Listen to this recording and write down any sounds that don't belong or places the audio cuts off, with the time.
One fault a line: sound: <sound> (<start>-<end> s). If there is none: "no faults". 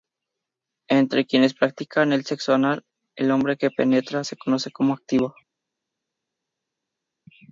no faults